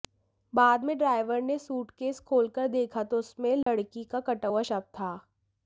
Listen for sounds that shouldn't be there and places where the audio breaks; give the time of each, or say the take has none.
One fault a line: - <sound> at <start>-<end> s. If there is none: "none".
- dropout at 3.6-3.7 s